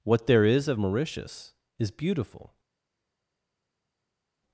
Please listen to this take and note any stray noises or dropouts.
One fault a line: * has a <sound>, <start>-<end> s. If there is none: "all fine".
all fine